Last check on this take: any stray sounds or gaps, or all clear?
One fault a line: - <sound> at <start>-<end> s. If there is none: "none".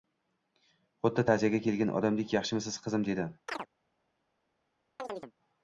- chirp at 3.5-3.7 s
- chirp at 5.0-5.3 s